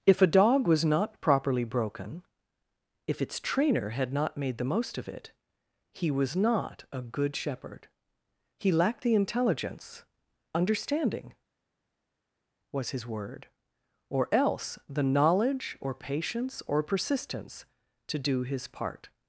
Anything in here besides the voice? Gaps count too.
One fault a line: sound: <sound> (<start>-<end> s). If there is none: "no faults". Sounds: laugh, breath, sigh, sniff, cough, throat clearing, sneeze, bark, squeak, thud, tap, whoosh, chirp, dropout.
no faults